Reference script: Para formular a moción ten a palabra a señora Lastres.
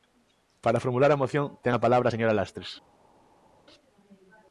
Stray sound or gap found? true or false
false